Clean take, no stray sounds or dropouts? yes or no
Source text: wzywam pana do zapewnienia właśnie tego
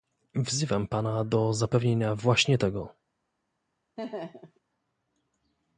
no